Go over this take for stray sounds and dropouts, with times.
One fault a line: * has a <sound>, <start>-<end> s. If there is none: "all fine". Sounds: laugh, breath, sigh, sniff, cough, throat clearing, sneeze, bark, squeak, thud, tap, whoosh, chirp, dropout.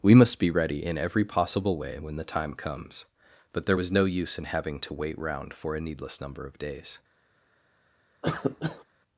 * has a cough, 8.2-8.8 s